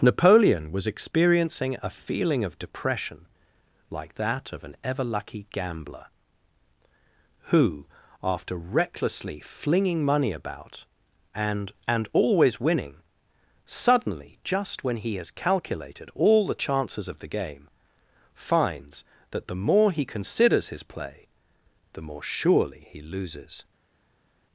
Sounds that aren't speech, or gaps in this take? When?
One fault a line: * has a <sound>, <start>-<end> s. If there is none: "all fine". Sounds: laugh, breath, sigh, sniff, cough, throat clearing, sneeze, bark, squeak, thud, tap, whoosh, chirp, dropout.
all fine